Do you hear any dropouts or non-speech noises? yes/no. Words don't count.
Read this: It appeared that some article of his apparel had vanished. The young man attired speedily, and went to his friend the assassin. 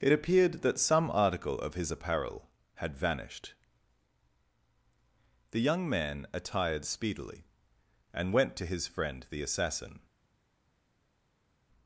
no